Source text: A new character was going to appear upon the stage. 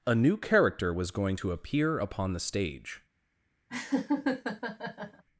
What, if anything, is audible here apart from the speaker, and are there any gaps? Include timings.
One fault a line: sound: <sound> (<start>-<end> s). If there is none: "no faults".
sound: laugh (3.7-5.2 s)